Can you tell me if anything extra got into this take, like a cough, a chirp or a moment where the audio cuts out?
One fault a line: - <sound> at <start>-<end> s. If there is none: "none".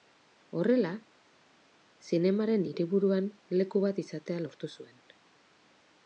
none